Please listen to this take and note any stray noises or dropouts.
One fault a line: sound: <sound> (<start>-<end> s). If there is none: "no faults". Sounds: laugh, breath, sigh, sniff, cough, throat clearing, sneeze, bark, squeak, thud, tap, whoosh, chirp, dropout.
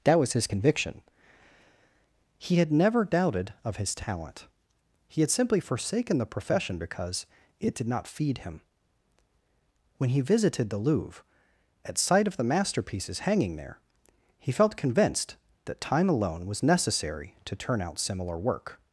no faults